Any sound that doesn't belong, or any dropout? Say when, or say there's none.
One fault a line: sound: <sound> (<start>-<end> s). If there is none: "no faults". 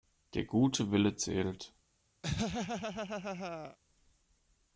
sound: laugh (2.2-3.8 s)